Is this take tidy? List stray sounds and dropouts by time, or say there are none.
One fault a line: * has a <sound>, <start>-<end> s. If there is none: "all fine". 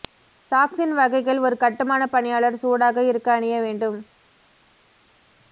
all fine